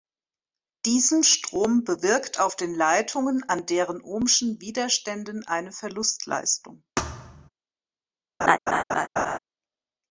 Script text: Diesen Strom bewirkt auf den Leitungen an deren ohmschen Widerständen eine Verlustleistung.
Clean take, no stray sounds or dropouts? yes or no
no